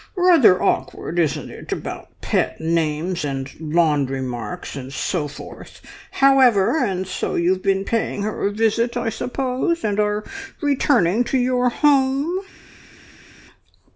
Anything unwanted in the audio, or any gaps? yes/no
no